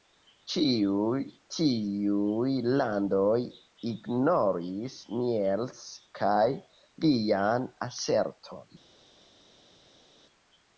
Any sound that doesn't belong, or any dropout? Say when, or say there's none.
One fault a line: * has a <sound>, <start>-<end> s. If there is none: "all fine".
all fine